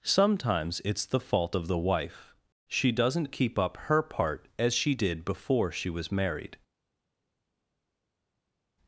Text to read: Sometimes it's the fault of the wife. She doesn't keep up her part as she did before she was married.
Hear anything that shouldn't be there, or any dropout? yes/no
no